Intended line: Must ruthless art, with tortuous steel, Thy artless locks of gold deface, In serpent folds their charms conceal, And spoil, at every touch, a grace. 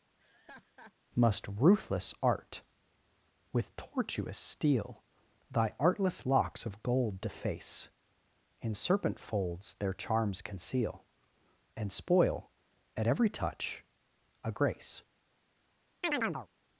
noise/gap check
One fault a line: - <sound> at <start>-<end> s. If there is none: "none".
- laugh at 0.2-0.9 s
- chirp at 16.0-16.5 s